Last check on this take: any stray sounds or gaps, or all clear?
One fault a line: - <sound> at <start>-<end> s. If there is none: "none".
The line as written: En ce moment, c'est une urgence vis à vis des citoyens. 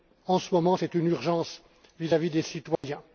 - dropout at 2.8-2.8 s